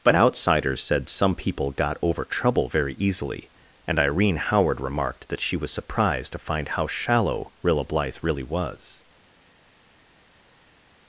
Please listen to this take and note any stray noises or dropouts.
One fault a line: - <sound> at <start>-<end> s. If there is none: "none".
none